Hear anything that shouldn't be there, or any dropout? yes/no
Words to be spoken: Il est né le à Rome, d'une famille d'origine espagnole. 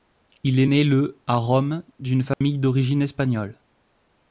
yes